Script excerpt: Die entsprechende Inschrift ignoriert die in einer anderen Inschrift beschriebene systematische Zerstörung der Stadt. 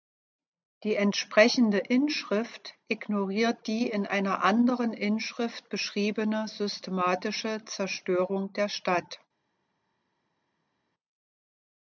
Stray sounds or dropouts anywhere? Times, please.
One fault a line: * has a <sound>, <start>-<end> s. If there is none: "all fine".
all fine